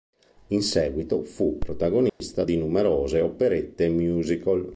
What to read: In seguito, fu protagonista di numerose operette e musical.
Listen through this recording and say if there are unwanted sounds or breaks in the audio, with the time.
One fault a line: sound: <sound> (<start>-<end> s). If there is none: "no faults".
sound: dropout (2.1-2.2 s)